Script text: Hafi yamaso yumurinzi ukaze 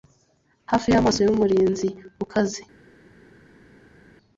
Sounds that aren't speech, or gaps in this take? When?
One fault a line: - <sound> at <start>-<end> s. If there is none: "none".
none